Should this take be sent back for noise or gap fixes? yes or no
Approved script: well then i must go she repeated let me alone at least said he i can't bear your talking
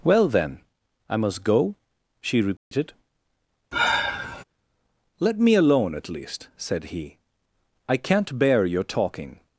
yes